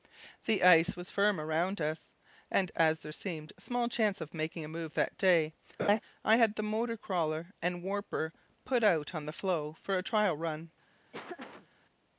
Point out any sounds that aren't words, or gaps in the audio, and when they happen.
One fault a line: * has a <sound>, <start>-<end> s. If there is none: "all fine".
* has a laugh, 5.8-6.0 s
* has a laugh, 11.1-11.7 s